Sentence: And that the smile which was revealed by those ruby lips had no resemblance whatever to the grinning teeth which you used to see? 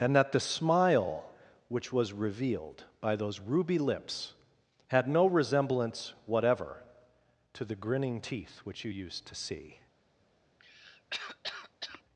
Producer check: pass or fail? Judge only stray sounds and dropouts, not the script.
fail